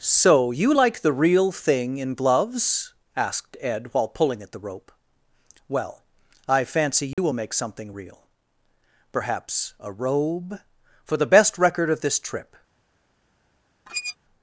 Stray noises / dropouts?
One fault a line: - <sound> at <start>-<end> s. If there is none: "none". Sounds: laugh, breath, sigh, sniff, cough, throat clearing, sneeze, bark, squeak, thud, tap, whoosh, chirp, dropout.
- dropout at 7.1-7.2 s
- squeak at 13.9-14.2 s